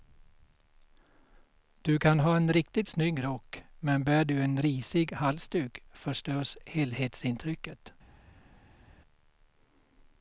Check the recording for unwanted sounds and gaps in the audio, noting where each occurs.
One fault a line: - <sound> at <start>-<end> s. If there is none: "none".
none